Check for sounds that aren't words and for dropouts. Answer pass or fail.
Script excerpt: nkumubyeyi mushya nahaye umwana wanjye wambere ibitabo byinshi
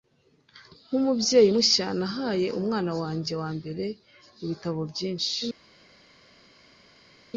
pass